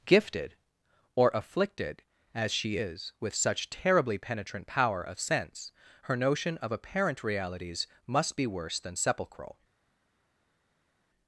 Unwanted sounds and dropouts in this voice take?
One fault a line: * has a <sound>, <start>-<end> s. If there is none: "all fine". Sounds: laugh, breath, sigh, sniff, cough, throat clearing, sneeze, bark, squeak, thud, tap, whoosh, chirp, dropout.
all fine